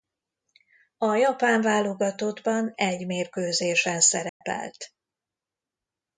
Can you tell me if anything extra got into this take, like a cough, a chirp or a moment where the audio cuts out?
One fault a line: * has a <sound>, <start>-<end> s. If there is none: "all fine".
* has a dropout, 4.3-4.4 s